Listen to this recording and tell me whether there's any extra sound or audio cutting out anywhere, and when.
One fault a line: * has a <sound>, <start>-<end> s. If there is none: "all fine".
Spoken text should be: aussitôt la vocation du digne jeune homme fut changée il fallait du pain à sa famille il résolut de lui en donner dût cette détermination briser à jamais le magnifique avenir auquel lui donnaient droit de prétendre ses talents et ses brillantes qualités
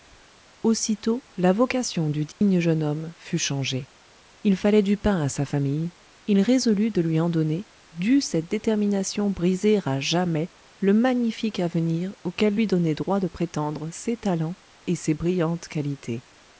* has a dropout, 2.3-2.4 s